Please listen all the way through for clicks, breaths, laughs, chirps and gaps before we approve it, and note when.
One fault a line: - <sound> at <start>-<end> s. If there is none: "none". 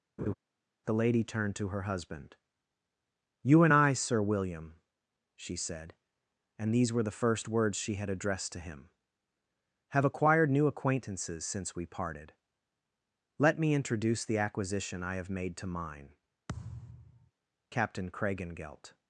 - laugh at 0.2-0.3 s
- thud at 16.5-17.3 s